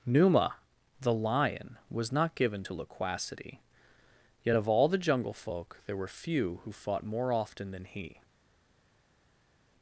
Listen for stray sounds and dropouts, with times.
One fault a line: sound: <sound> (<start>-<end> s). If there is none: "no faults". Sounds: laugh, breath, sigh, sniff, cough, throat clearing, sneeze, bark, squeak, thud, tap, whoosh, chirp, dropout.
no faults